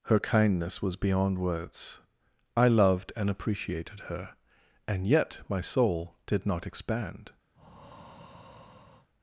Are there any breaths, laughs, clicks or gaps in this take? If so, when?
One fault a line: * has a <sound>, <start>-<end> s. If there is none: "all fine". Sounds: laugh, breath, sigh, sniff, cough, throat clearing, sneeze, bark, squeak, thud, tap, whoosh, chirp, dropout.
* has a breath, 7.5-9.1 s